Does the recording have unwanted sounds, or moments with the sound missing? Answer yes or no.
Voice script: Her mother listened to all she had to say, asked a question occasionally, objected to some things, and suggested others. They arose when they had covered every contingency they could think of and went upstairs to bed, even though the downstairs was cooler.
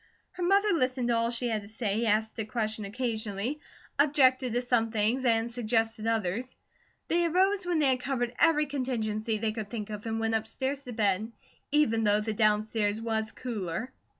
no